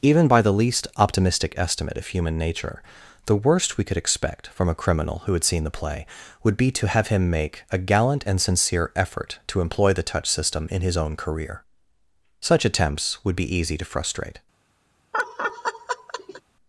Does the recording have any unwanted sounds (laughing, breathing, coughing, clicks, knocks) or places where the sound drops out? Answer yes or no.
yes